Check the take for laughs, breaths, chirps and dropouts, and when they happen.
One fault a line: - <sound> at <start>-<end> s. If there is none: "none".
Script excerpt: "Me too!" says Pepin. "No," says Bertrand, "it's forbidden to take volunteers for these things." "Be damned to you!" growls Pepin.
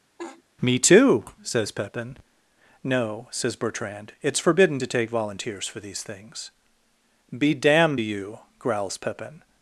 - laugh at 0.2-0.4 s